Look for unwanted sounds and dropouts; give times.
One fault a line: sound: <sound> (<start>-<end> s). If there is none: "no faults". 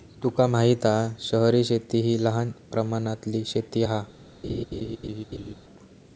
sound: laugh (4.4-5.5 s)